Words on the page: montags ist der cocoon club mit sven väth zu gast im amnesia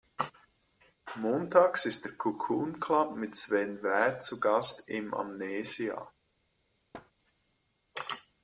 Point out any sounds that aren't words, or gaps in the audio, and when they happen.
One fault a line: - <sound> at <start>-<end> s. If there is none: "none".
- thud at 6.9-7.1 s